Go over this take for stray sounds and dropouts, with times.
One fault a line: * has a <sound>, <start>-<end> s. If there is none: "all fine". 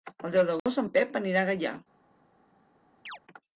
* has a dropout, 0.6-0.7 s
* has a chirp, 3.1-3.2 s